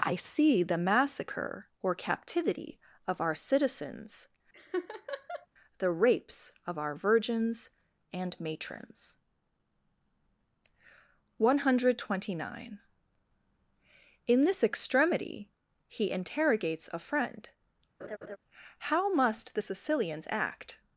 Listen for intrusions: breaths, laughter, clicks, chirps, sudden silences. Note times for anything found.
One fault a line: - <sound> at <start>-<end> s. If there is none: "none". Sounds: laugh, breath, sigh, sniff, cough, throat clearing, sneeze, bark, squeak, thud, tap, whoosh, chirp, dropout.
- laugh at 4.5-5.5 s
- laugh at 18.0-18.4 s